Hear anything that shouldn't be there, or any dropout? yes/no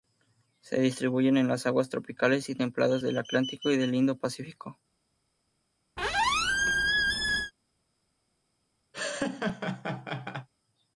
yes